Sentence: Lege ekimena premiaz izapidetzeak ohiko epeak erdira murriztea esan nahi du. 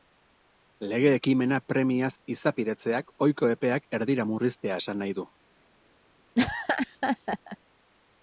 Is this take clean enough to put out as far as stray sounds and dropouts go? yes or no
no